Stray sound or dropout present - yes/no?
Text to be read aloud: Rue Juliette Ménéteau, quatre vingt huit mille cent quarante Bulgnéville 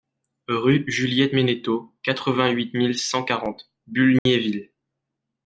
yes